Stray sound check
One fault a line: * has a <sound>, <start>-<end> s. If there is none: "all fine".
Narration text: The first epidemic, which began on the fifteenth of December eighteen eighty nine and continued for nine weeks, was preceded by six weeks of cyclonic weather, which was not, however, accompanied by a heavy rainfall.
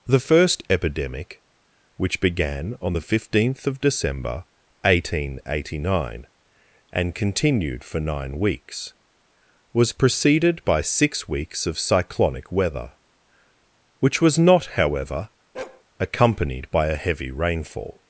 * has a bark, 15.5-15.8 s